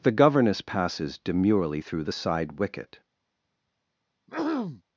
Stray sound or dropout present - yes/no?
yes